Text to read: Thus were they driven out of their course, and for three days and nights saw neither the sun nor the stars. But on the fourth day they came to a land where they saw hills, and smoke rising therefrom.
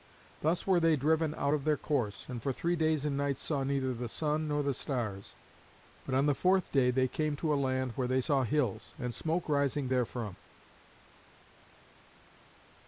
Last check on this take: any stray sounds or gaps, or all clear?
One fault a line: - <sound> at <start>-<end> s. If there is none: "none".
none